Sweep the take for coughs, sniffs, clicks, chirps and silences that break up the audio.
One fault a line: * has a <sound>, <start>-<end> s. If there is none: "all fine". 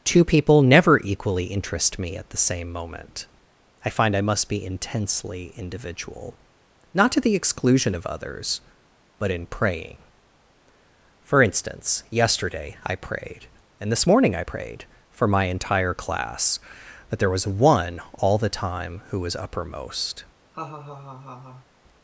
* has a laugh, 20.5-21.7 s